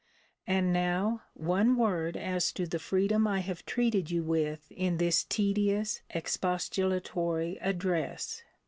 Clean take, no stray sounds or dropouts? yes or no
yes